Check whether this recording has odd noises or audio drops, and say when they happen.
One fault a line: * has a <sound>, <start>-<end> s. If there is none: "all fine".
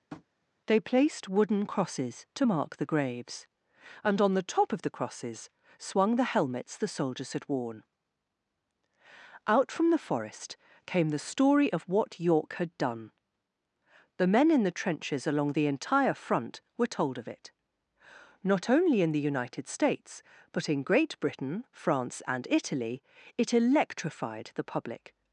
* has a tap, 0.1-0.2 s